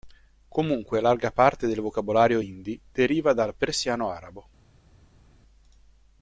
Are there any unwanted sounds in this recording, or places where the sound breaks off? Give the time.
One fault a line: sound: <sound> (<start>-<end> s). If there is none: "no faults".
no faults